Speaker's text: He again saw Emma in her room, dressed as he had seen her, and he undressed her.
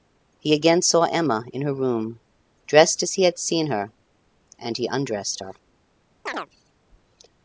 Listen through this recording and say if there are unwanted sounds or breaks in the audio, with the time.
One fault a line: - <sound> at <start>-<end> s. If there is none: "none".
- chirp at 6.3-6.5 s